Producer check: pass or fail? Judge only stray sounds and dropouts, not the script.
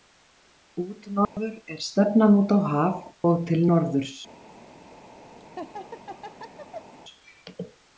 fail